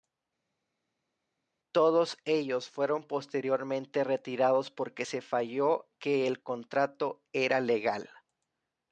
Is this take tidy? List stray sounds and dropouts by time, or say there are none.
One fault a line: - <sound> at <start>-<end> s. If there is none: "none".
none